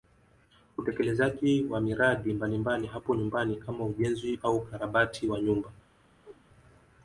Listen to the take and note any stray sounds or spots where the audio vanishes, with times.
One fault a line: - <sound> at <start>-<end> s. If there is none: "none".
- whoosh at 6.2-6.5 s